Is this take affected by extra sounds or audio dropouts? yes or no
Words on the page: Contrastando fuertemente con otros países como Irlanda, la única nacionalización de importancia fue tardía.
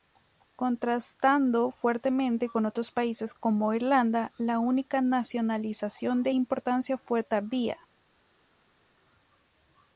no